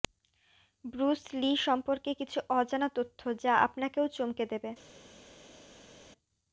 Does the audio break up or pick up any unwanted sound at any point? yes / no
no